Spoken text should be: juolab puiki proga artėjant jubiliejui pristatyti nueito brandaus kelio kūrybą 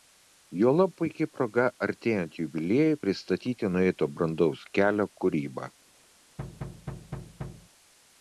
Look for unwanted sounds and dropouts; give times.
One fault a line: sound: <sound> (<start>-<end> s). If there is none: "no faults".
sound: thud (6.4-7.7 s)